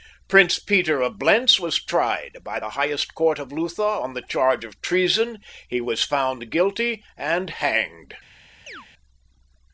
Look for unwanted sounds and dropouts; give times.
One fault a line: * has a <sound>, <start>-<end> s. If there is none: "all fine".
* has a chirp, 8.7-8.9 s